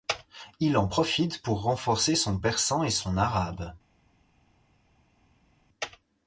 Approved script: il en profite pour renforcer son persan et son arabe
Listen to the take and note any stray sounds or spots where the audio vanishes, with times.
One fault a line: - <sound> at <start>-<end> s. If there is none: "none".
none